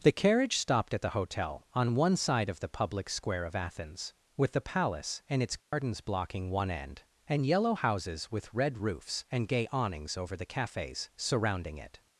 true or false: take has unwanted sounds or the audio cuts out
true